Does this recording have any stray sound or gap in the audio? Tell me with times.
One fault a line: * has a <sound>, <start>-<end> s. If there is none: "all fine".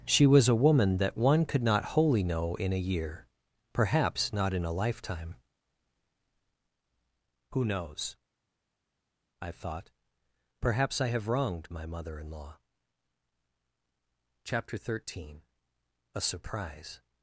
all fine